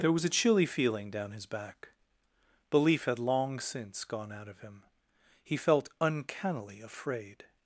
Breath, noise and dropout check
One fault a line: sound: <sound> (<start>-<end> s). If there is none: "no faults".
no faults